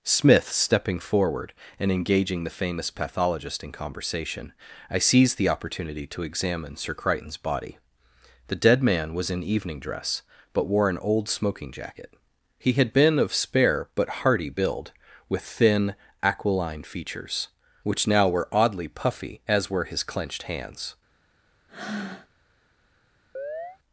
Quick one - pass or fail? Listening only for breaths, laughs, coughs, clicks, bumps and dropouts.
fail